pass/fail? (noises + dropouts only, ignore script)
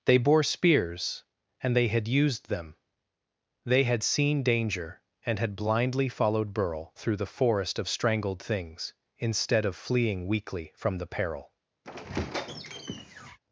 fail